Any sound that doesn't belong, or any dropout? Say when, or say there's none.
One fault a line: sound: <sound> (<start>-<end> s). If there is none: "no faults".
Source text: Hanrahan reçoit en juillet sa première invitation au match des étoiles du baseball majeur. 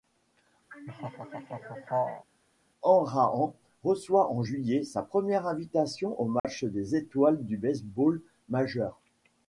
sound: laugh (0.7-2.3 s)
sound: dropout (6.4-6.4 s)